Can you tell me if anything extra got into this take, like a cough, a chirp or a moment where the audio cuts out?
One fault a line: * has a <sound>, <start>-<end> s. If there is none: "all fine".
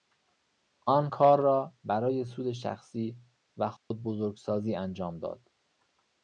* has a dropout, 3.8-3.9 s